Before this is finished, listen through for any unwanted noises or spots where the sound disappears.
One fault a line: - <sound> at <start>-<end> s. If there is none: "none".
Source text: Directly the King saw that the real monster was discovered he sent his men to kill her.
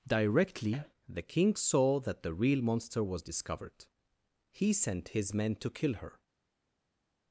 none